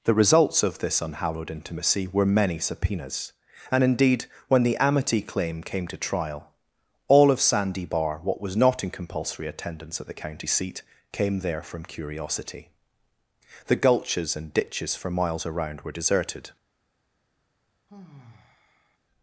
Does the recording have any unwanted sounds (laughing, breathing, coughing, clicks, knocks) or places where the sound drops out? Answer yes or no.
yes